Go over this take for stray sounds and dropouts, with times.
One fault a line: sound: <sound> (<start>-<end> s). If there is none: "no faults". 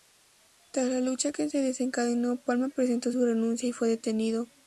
no faults